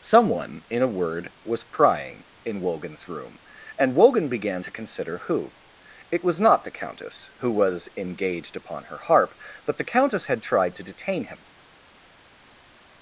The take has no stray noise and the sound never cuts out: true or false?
true